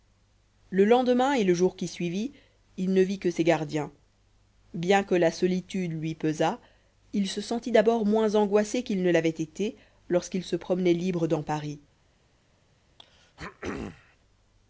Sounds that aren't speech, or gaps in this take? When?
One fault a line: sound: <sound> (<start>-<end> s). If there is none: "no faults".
sound: throat clearing (13.0-14.2 s)